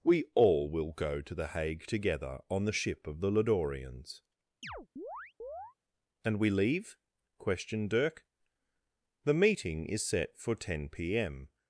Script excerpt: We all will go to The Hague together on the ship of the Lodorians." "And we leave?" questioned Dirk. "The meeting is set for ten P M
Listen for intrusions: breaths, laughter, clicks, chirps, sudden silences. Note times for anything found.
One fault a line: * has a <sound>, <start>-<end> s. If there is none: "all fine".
* has a chirp, 4.6-5.7 s